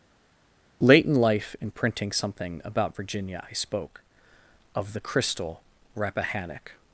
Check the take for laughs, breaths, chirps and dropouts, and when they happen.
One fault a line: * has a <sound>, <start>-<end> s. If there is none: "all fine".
all fine